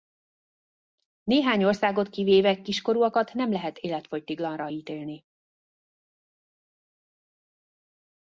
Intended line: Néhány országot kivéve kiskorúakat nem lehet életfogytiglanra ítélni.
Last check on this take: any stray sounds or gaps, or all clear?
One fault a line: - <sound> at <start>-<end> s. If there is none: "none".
none